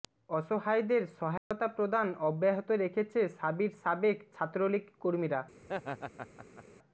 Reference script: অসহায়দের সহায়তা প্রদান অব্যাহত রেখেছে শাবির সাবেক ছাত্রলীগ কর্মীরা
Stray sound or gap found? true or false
true